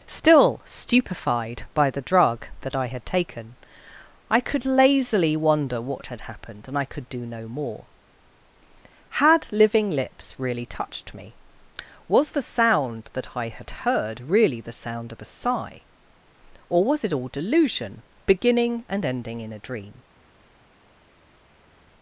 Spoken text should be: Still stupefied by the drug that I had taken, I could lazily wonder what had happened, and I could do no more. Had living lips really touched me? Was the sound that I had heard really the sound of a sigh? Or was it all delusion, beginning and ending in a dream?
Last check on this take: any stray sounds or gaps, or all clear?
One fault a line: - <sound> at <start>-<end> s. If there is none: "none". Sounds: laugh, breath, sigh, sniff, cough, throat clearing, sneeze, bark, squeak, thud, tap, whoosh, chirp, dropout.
none